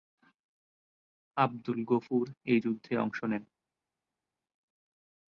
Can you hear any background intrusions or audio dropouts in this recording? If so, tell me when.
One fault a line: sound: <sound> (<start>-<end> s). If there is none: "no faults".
no faults